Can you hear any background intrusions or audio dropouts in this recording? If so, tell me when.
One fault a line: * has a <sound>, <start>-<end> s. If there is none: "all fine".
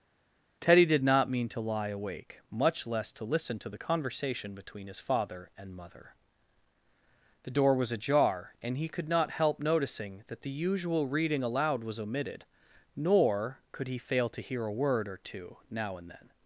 all fine